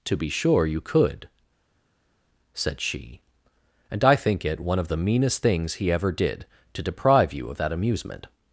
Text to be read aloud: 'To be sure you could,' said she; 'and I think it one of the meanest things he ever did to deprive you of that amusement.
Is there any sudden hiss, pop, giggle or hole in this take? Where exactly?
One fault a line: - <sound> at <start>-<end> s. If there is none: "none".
none